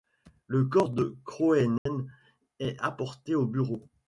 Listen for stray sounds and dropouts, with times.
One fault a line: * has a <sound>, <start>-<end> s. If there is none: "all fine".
* has a dropout, 1.8-1.9 s